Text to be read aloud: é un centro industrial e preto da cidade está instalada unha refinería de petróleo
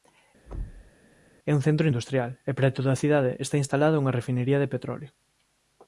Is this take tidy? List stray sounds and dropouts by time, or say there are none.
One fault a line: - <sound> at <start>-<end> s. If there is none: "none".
- thud at 0.5-0.9 s